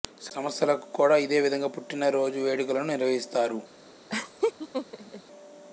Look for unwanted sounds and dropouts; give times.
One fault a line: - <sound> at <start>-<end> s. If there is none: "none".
- laugh at 4.1-5.2 s